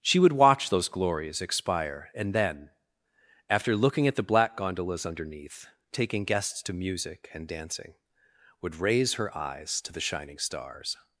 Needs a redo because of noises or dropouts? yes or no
no